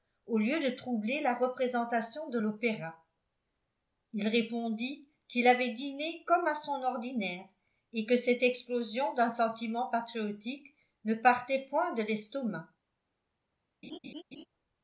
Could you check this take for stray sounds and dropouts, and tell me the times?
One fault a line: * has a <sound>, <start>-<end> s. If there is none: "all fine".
* has a laugh, 13.8-14.5 s